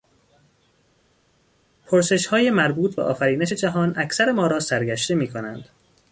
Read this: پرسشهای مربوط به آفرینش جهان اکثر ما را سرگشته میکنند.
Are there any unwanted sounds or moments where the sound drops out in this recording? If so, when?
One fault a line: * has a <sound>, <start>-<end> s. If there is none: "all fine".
all fine